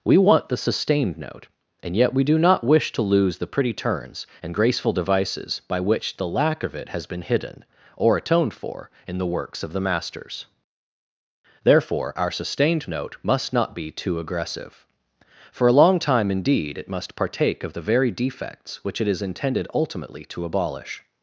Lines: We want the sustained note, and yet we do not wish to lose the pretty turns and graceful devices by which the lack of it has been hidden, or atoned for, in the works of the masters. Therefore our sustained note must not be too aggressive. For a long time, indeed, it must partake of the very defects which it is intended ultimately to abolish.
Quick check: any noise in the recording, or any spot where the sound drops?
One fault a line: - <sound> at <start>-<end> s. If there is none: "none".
none